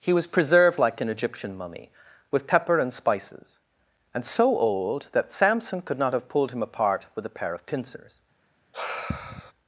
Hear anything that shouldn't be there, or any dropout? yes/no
yes